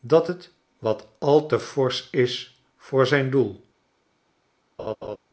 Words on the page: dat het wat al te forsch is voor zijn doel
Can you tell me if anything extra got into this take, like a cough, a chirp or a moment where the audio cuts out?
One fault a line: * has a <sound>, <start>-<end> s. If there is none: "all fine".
* has a laugh, 4.8-5.2 s